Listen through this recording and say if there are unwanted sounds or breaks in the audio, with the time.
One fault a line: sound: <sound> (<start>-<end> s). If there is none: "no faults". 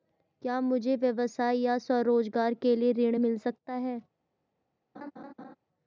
sound: laugh (4.9-5.6 s)